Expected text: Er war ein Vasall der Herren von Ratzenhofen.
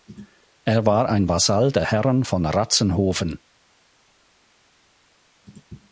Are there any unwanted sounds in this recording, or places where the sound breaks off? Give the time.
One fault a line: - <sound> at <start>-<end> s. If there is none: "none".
none